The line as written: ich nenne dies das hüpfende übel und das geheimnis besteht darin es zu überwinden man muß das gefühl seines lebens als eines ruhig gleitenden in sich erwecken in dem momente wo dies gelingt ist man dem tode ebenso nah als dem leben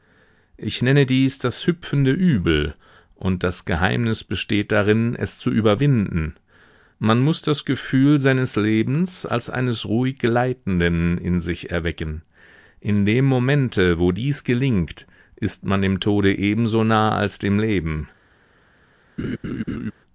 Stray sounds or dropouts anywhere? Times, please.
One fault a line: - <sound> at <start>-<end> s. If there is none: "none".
- laugh at 19.2-19.9 s